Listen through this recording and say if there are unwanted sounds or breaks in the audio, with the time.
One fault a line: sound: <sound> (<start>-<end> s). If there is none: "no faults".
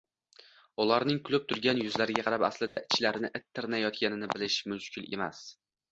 sound: dropout (2.7-2.8 s)